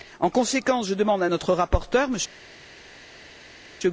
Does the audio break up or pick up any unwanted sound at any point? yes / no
no